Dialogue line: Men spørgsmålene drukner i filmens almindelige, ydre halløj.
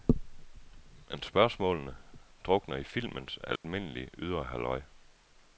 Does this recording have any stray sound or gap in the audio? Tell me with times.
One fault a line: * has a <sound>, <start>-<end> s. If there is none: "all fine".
* has a dropout, 3.6-3.6 s